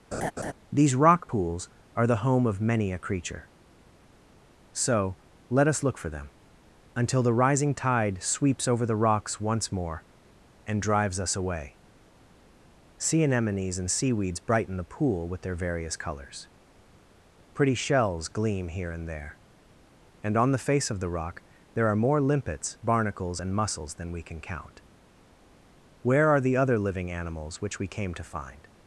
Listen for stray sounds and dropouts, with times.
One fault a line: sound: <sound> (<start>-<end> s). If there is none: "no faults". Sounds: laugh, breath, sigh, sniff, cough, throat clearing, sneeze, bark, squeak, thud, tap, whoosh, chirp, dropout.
sound: laugh (0.1-0.5 s)